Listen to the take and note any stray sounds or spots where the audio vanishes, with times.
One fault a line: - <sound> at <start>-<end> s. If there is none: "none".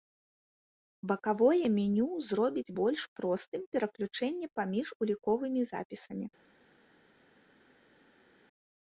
none